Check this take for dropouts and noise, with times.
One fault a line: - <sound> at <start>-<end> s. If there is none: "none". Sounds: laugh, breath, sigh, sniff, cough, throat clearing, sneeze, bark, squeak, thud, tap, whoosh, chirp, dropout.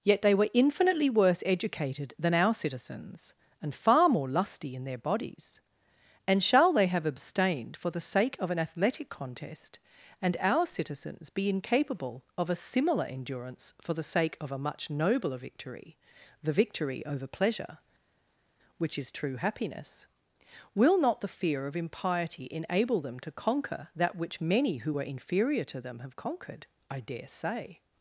none